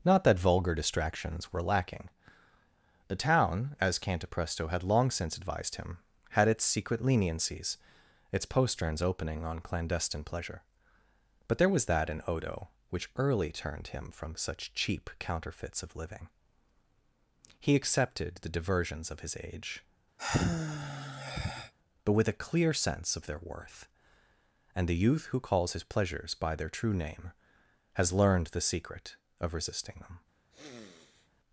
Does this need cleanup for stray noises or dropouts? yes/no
yes